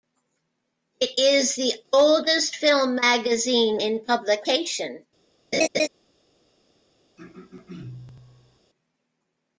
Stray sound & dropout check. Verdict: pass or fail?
fail